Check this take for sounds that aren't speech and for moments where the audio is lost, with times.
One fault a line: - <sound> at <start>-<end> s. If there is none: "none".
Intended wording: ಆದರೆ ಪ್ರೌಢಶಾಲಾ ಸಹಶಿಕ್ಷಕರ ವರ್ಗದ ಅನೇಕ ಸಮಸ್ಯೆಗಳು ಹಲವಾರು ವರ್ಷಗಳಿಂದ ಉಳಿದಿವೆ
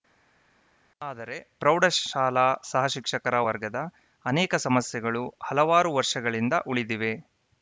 none